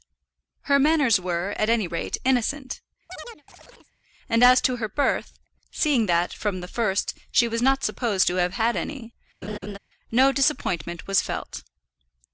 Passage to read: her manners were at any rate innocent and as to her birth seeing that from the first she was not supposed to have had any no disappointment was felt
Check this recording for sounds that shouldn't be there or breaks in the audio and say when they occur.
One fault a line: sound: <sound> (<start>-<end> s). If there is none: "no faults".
sound: chirp (3.1-3.9 s)
sound: laugh (9.4-9.8 s)